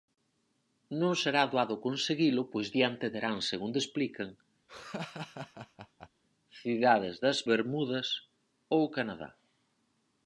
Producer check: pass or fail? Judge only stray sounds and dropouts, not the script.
fail